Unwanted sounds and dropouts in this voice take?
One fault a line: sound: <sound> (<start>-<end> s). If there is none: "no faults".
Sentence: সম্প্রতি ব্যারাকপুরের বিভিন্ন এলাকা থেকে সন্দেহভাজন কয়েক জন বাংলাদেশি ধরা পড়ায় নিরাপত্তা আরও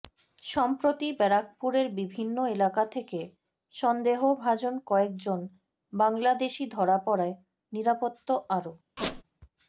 sound: squeak (9.0-9.2 s)